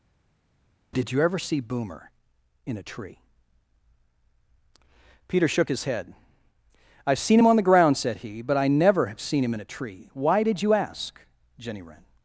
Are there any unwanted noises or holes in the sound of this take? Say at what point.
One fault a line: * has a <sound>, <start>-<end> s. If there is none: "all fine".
all fine